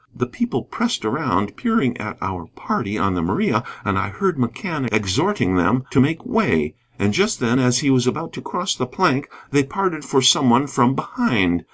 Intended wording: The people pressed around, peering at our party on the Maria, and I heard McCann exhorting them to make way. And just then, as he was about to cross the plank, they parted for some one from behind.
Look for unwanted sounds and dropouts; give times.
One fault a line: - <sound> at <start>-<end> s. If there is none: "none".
none